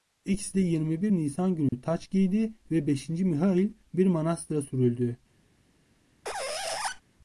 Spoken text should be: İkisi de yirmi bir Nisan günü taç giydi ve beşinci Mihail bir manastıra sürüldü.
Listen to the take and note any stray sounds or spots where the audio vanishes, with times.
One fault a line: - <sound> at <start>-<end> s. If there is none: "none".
- dropout at 1.7-1.7 s
- squeak at 6.2-7.0 s